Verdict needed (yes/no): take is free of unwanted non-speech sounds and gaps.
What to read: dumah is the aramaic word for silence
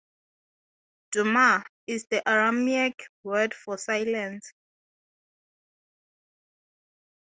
yes